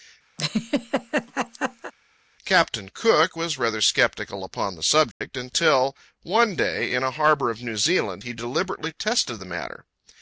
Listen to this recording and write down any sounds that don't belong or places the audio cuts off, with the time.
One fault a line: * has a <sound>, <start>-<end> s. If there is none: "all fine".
* has a laugh, 0.4-1.9 s
* has a dropout, 5.1-5.2 s